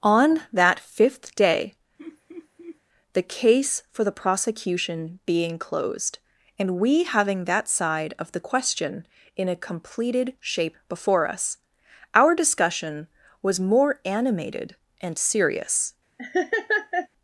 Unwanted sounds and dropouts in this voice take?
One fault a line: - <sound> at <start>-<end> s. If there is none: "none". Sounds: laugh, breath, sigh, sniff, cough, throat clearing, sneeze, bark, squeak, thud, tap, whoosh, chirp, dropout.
- laugh at 2.0-2.8 s
- laugh at 16.2-17.1 s